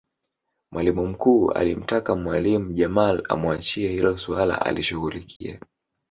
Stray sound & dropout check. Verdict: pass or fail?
fail